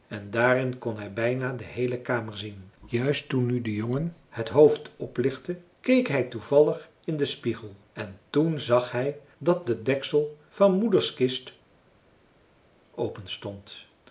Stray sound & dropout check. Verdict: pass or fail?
pass